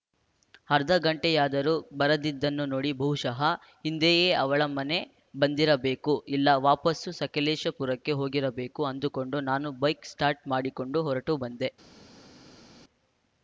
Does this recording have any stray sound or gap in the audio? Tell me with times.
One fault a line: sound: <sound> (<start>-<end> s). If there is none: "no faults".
no faults